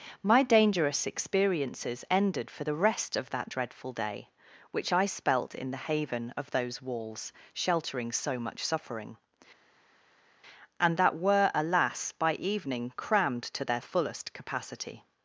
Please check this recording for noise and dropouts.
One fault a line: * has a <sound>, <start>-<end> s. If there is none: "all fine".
all fine